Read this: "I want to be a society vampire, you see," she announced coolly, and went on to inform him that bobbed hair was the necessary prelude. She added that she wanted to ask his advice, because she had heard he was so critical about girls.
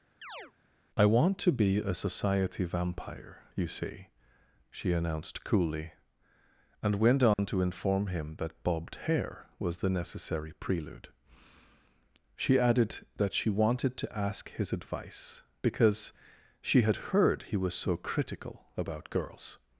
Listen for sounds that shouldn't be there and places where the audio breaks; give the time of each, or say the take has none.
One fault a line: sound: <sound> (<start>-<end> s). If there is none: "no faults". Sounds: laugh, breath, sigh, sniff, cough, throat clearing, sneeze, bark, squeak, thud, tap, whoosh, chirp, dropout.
sound: chirp (0.2-0.5 s)
sound: dropout (7.3-7.4 s)